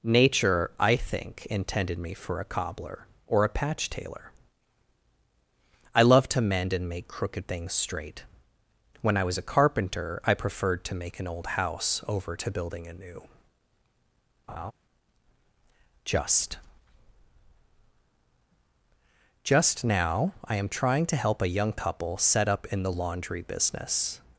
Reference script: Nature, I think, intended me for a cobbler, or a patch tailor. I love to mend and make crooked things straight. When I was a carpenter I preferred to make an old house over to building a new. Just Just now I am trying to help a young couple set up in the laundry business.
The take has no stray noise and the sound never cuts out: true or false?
false